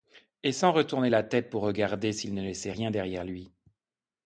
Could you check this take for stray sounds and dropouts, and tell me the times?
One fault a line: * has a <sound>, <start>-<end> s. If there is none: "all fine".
all fine